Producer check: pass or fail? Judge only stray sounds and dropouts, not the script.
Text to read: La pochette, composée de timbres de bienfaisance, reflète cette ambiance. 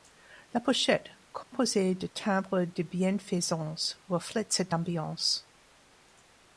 fail